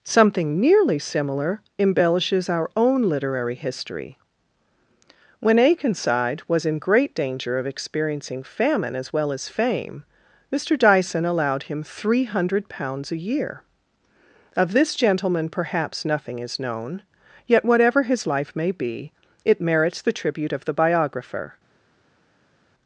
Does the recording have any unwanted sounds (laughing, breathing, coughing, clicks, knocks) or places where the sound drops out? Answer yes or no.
no